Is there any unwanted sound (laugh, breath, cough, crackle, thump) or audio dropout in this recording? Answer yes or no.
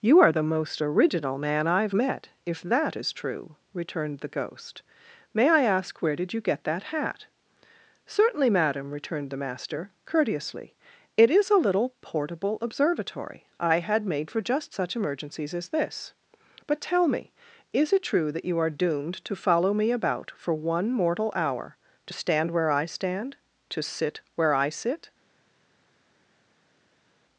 no